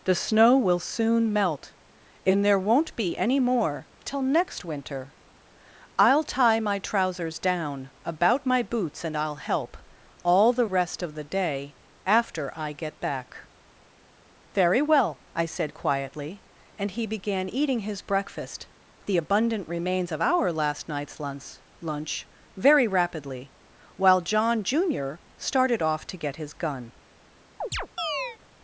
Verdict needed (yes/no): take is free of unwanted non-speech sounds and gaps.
no